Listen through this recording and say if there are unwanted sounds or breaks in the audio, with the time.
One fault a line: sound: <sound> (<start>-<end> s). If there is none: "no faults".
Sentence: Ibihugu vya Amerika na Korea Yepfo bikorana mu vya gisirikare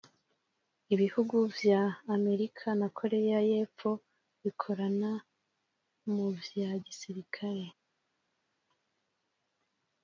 no faults